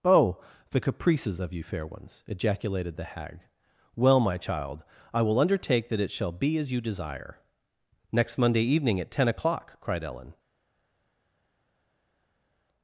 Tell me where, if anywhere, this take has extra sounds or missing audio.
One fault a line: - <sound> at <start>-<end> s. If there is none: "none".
none